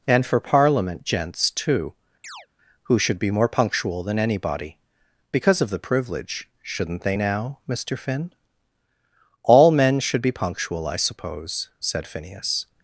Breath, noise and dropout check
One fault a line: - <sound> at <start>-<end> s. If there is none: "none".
- chirp at 2.2-2.5 s